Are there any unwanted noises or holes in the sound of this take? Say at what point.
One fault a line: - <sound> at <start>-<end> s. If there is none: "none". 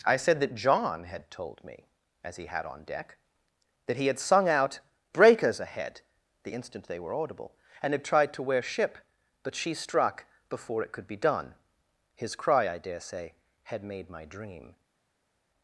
none